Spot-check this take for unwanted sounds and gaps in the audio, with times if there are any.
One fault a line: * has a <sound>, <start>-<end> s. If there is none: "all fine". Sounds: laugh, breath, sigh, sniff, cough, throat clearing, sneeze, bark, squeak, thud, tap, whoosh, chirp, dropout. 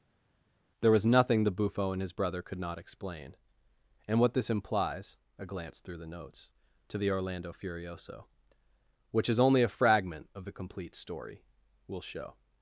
all fine